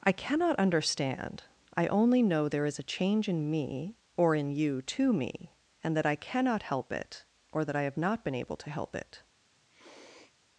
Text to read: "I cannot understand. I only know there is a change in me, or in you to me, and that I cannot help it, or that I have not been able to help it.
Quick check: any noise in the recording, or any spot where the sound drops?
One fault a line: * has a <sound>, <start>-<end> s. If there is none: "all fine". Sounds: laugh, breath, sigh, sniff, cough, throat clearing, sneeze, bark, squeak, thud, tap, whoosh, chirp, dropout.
* has a sniff, 9.7-10.3 s